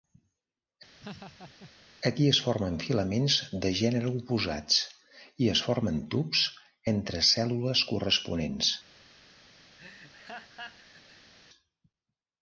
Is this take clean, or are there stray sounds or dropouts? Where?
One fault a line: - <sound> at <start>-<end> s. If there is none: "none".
- laugh at 1.0-1.7 s
- laugh at 9.8-11.3 s